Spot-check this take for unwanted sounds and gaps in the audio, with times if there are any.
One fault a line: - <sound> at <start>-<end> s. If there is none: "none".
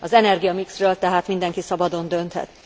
none